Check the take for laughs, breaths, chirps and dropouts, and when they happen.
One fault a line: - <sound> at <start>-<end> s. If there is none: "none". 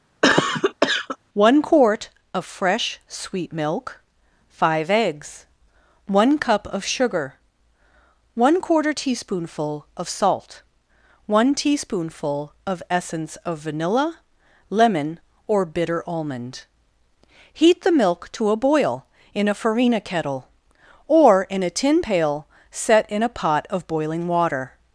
- cough at 0.2-1.2 s